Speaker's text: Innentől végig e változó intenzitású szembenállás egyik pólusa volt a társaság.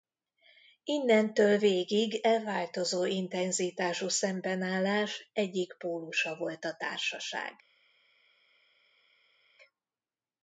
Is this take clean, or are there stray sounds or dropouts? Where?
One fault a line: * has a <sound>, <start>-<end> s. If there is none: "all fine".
all fine